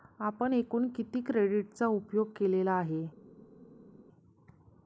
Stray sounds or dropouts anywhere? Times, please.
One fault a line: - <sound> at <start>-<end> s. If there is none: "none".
none